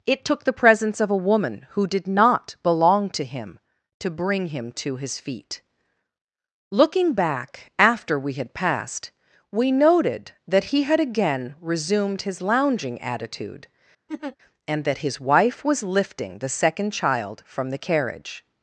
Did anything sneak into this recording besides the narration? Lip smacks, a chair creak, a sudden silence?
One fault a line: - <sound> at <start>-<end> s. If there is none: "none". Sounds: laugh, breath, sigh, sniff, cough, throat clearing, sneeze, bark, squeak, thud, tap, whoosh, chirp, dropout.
- laugh at 14.1-14.4 s